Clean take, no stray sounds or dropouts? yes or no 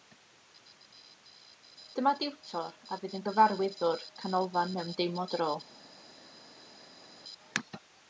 yes